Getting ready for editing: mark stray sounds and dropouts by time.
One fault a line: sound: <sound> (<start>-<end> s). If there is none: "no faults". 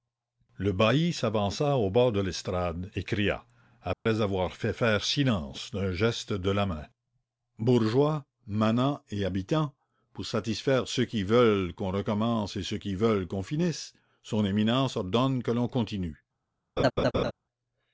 sound: dropout (3.9-4.1 s)
sound: laugh (16.8-17.3 s)